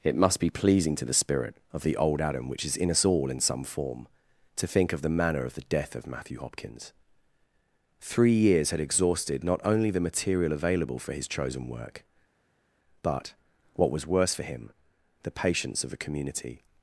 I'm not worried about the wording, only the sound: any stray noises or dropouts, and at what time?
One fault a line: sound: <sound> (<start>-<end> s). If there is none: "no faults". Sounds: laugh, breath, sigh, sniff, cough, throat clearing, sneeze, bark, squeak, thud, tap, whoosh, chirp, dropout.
no faults